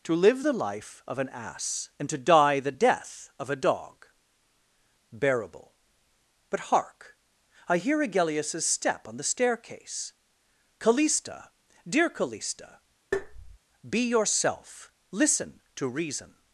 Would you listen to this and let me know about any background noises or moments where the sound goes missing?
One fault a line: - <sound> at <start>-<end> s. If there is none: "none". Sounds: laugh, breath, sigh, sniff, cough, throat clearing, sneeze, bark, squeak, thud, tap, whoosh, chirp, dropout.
- tap at 13.1-13.6 s